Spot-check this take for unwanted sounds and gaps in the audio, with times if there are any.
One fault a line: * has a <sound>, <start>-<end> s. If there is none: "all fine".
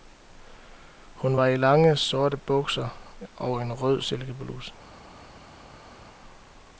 all fine